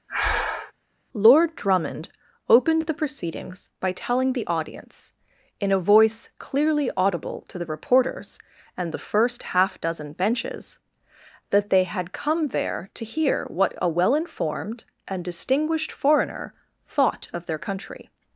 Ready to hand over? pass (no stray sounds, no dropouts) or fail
fail